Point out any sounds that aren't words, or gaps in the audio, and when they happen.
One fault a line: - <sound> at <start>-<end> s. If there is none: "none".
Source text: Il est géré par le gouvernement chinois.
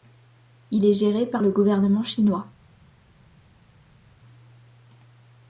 none